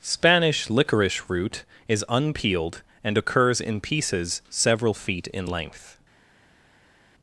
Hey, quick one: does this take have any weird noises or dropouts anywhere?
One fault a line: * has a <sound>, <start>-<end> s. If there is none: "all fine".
all fine